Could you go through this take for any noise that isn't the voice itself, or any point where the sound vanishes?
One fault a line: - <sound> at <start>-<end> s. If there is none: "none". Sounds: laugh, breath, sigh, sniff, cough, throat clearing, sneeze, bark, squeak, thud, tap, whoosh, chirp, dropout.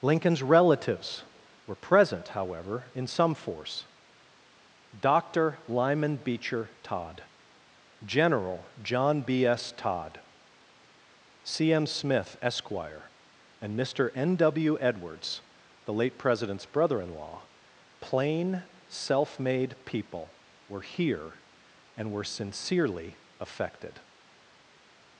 none